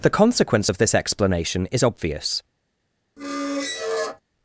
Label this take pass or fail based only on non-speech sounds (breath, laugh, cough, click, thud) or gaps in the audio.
fail